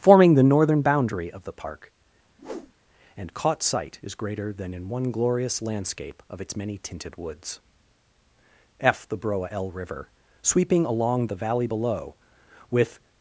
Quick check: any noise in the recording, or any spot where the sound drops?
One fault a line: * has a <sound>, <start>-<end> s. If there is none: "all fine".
* has a whoosh, 2.4-2.7 s